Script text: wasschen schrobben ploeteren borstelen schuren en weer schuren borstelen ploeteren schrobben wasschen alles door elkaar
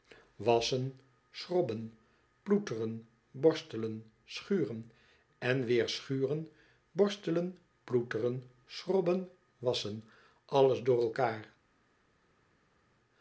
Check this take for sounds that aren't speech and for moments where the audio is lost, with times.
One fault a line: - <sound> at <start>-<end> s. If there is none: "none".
none